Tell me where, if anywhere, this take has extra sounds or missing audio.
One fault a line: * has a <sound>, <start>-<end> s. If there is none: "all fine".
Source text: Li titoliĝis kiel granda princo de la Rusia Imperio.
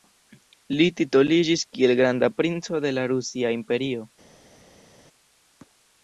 all fine